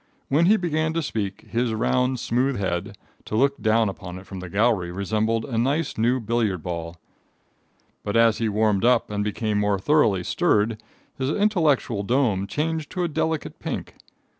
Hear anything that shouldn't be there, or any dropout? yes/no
no